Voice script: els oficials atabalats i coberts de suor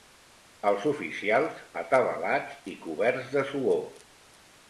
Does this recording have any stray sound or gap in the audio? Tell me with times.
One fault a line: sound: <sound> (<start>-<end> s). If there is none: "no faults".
no faults